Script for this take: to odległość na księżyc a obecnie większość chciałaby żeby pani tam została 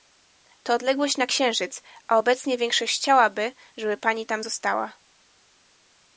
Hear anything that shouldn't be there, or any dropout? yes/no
no